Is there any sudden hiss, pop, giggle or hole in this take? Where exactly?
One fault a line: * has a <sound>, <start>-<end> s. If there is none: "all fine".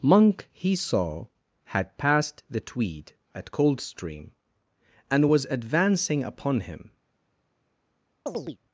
* has a chirp, 8.3-8.6 s